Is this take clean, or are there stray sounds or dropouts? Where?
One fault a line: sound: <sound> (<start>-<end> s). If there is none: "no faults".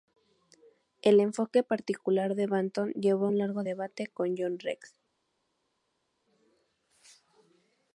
no faults